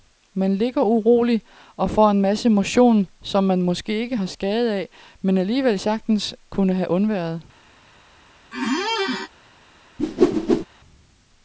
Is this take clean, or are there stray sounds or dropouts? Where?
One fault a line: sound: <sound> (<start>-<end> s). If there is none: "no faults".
sound: squeak (8.5-9.3 s)
sound: whoosh (10.0-10.7 s)